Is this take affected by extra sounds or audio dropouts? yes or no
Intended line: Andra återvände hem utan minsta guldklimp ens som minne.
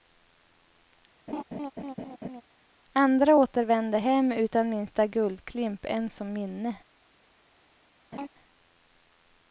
yes